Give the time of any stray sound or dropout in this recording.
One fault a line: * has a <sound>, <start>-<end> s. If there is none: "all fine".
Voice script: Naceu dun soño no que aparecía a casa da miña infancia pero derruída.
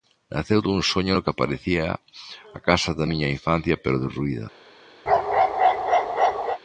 * has a bark, 5.1-6.6 s